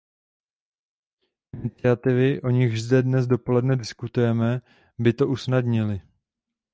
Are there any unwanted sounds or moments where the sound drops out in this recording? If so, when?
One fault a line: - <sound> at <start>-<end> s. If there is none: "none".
none